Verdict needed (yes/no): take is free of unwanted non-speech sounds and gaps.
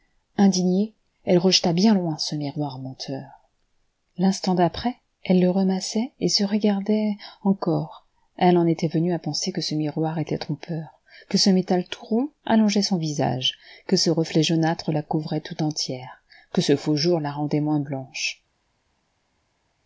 yes